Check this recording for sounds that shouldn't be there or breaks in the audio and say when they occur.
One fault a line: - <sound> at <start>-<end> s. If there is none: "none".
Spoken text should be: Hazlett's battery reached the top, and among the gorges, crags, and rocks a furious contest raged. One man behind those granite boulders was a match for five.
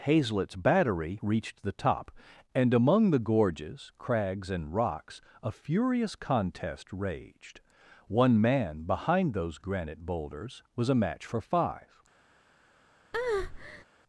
- breath at 13.1-13.8 s